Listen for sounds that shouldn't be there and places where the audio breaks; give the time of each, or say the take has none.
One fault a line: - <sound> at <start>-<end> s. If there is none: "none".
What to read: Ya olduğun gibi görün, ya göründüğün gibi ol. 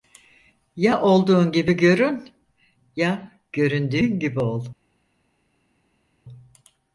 none